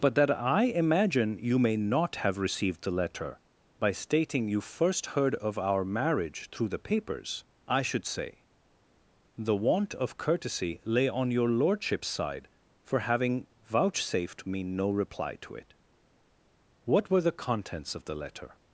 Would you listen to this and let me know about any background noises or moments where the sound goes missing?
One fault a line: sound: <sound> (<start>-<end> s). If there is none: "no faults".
no faults